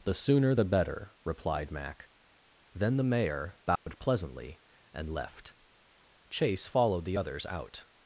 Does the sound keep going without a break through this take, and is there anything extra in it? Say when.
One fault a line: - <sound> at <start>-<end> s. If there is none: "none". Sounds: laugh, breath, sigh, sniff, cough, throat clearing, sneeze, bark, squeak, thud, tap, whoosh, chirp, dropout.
- dropout at 3.8-3.9 s